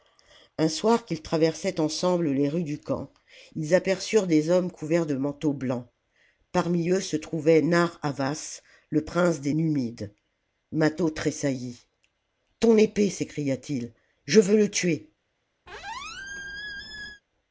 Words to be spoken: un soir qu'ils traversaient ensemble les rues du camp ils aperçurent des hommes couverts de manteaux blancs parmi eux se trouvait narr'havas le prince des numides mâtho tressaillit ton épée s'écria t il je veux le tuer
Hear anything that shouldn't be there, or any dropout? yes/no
yes